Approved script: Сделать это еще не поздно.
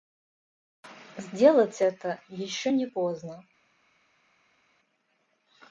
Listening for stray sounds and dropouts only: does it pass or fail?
pass